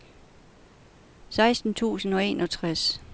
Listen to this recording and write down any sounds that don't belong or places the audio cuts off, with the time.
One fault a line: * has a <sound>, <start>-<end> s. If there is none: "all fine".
all fine